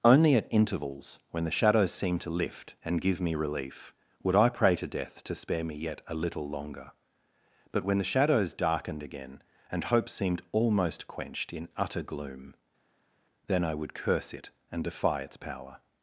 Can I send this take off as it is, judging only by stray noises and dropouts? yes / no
yes